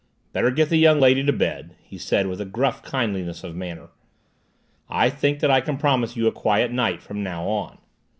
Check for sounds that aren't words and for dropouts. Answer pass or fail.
pass